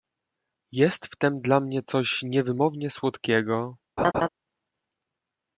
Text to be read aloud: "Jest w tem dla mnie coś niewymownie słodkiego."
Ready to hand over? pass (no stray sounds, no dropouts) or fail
fail